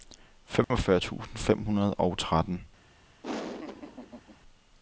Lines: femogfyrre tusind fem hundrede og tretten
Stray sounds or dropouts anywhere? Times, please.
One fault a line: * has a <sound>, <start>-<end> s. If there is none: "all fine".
* has a dropout, 0.6-0.7 s
* has a laugh, 3.2-4.4 s